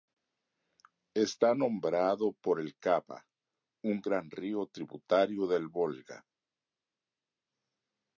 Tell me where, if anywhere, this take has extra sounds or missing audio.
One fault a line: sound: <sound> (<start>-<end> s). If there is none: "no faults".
no faults